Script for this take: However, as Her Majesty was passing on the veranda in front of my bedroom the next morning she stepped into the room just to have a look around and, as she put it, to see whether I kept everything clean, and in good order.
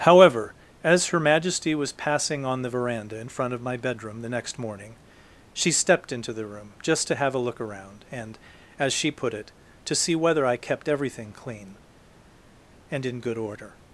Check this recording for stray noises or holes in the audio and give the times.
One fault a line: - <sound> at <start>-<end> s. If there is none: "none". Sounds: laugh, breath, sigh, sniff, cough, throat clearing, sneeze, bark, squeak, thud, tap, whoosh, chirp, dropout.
none